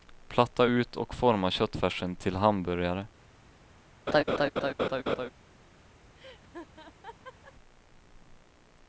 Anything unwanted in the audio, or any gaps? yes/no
yes